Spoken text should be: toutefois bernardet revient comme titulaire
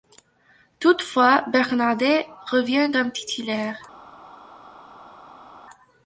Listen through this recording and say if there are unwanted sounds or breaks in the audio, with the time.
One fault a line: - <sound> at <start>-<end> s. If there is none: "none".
none